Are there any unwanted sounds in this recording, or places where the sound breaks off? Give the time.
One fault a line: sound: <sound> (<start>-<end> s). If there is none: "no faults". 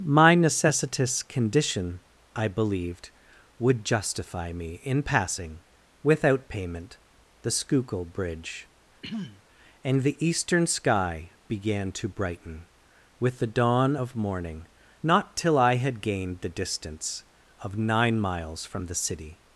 sound: throat clearing (9.0-9.4 s)